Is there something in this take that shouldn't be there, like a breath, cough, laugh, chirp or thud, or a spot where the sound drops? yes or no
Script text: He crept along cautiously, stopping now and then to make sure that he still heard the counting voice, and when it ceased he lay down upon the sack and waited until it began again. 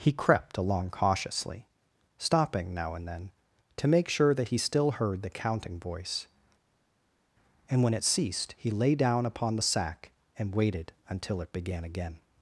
no